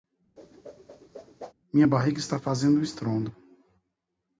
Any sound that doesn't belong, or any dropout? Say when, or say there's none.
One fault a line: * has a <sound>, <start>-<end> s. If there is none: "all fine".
* has a whoosh, 0.4-1.5 s